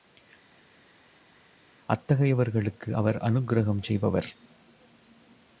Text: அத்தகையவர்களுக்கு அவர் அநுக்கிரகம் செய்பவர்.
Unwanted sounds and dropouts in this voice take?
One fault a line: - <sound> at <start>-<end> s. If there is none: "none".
none